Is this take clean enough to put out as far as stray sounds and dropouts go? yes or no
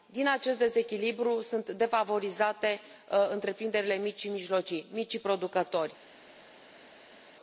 yes